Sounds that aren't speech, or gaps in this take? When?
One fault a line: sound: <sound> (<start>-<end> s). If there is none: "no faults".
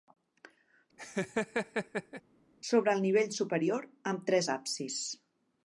sound: laugh (1.0-2.2 s)